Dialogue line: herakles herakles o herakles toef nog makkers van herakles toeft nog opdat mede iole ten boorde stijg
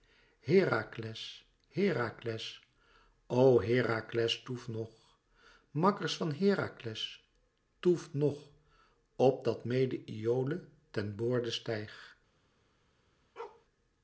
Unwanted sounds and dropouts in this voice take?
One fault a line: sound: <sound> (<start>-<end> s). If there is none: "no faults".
sound: bark (13.4-13.7 s)